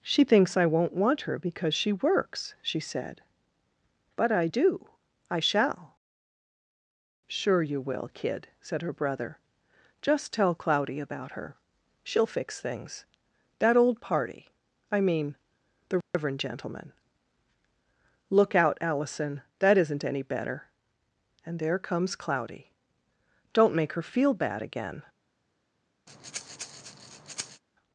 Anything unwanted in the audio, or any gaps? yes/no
yes